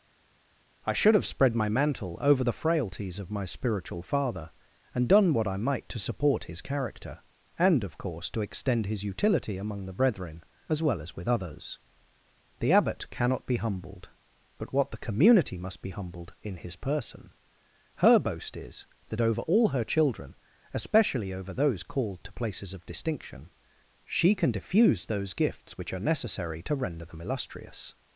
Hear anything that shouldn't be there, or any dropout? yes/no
no